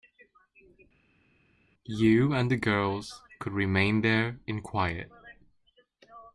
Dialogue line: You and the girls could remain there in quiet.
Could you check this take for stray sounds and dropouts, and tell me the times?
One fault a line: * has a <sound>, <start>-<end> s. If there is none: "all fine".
all fine